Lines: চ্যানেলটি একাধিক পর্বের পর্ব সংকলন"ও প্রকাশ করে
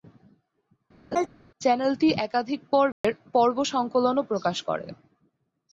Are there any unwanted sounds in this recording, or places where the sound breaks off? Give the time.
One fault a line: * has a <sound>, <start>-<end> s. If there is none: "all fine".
* has a laugh, 1.1-1.3 s
* has a dropout, 2.9-3.0 s